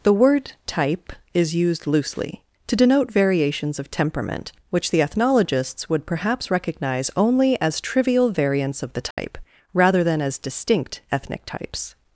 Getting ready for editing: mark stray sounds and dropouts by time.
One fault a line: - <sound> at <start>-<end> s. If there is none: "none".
- dropout at 9.1-9.2 s